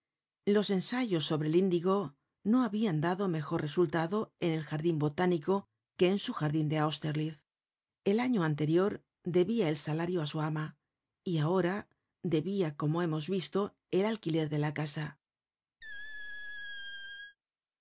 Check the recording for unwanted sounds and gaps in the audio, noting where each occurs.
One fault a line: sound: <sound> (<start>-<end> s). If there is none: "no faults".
sound: squeak (15.8-17.4 s)